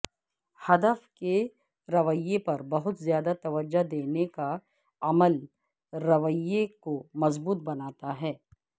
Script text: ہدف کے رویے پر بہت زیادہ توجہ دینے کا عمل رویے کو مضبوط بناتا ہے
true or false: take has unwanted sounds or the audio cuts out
false